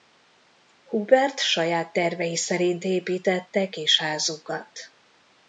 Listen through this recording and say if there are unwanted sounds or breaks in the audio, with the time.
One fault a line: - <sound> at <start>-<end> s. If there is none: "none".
none